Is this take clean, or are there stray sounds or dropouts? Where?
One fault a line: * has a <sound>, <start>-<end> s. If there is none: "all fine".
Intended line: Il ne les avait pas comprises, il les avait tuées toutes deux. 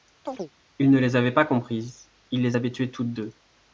* has a chirp, 0.3-0.5 s